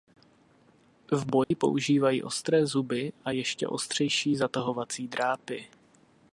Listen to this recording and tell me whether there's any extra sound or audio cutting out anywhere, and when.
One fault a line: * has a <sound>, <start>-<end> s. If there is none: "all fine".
* has a dropout, 1.4-1.5 s